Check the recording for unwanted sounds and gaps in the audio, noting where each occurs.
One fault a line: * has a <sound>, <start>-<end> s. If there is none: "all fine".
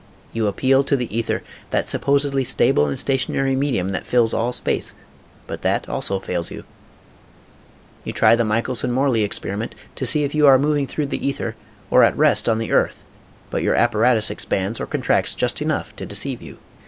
all fine